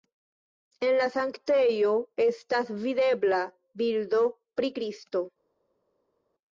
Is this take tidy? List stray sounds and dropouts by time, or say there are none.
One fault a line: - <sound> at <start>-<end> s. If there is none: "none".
none